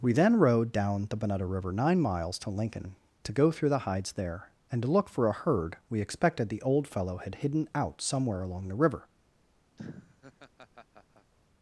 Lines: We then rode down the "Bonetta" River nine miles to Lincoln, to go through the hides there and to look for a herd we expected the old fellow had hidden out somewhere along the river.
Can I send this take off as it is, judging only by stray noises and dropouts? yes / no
no